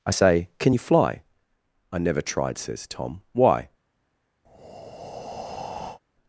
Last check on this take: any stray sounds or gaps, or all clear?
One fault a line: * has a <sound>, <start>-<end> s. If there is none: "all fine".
* has a breath, 4.4-6.0 s